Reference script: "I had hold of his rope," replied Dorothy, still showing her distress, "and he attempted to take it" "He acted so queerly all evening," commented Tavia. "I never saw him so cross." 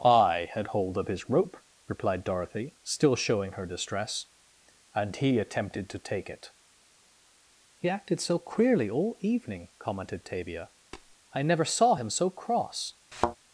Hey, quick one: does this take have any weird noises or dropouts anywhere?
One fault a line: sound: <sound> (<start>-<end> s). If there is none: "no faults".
sound: tap (10.9-11.2 s)
sound: thud (13.1-13.4 s)